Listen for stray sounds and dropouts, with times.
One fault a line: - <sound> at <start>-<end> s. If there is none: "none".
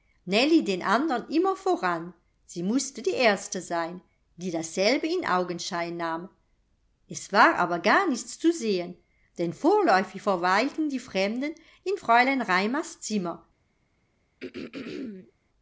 - throat clearing at 14.4-15.3 s